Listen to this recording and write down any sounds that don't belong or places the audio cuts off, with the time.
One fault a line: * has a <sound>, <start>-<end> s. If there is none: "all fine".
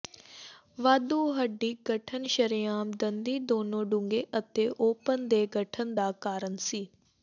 all fine